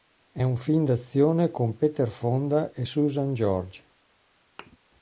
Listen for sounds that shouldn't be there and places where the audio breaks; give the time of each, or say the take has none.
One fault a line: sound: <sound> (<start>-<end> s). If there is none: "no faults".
sound: thud (4.6-4.8 s)